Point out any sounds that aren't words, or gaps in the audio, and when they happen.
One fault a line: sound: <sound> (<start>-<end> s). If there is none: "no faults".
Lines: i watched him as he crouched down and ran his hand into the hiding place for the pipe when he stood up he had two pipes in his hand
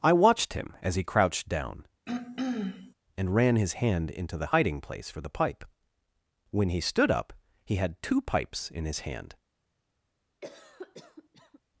sound: throat clearing (2.1-2.9 s)
sound: cough (10.4-11.6 s)